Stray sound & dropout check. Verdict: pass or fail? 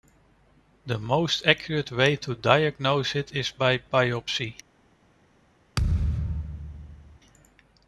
fail